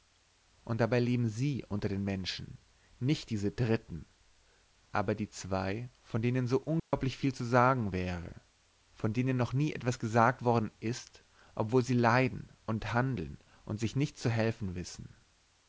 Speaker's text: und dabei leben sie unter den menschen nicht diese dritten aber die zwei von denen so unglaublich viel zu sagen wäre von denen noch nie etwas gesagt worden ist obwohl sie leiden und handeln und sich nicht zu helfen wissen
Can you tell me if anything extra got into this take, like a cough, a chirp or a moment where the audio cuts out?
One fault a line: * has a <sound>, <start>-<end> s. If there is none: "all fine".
* has a dropout, 6.8-6.9 s